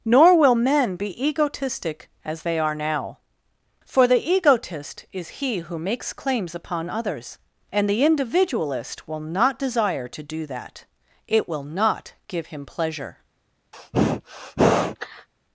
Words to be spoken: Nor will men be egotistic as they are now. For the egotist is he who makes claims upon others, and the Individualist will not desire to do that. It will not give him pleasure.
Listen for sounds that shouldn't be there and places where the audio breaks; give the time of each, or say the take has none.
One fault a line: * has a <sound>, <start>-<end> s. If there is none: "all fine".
* has a sneeze, 13.7-15.3 s